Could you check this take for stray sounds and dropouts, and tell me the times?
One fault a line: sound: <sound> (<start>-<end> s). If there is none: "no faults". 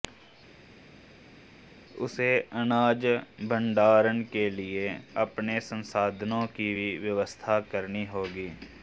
no faults